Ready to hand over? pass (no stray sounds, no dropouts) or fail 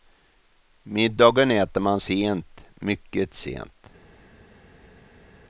pass